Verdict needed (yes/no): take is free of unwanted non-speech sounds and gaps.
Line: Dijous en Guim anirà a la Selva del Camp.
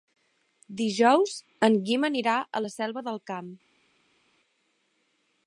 yes